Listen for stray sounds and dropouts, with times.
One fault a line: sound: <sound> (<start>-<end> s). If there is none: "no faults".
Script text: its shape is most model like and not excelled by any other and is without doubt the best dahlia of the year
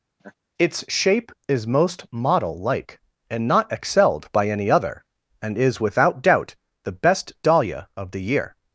sound: laugh (0.2-0.3 s)